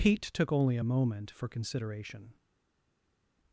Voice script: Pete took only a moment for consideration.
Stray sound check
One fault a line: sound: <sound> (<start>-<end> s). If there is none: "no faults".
no faults